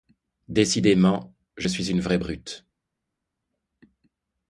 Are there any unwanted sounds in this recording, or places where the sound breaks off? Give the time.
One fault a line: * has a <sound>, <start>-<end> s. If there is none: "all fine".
all fine